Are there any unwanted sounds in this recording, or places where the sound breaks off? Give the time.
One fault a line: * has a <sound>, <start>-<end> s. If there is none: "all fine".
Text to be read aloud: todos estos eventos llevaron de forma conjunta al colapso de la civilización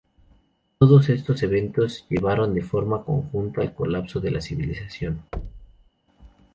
* has a thud, 5.3-5.9 s